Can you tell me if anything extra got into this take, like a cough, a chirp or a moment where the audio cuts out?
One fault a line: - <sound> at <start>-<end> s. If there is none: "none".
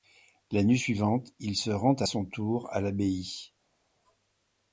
none